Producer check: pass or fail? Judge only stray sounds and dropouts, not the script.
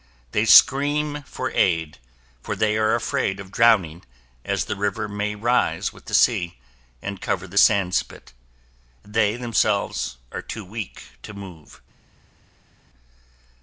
pass